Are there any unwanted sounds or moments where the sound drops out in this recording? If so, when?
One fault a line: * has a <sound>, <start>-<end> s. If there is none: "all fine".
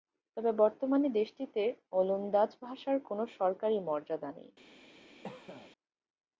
* has a cough, 5.2-5.7 s